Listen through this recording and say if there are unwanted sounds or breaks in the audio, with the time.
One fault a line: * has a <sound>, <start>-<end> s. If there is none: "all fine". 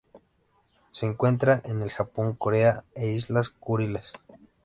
all fine